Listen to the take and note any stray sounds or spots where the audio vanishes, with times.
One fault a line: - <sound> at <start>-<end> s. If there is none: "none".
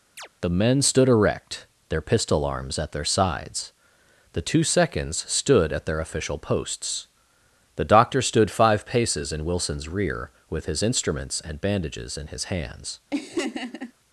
- chirp at 0.2-0.3 s
- laugh at 13.1-13.9 s